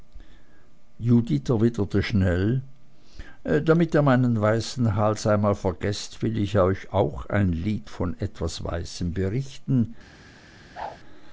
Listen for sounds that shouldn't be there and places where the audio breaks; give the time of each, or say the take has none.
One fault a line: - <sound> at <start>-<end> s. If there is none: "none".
- whoosh at 10.7-11.0 s